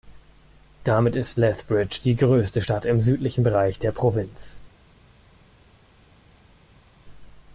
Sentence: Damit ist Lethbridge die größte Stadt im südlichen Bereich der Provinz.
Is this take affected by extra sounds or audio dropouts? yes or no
no